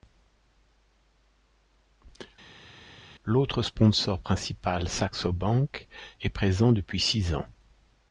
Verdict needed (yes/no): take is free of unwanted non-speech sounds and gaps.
yes